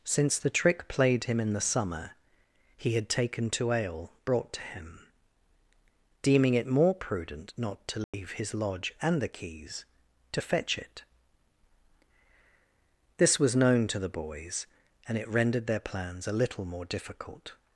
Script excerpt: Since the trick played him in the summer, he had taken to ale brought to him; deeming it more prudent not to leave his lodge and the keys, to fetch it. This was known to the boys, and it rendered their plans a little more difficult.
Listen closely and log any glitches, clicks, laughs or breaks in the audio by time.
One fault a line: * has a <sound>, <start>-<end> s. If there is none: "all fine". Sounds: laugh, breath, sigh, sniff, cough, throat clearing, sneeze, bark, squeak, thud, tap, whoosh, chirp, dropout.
* has a dropout, 8.0-8.1 s